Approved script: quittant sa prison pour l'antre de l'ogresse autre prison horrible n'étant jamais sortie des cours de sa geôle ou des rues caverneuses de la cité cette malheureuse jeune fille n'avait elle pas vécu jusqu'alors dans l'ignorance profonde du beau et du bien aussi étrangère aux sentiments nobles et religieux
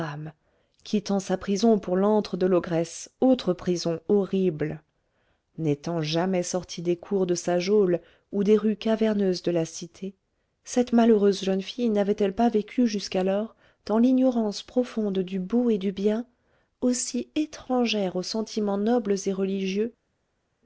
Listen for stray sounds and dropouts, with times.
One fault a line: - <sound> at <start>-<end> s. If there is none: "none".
none